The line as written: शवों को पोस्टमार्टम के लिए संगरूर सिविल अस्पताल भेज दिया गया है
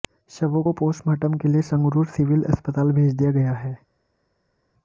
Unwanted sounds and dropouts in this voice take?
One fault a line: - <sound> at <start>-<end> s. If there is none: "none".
none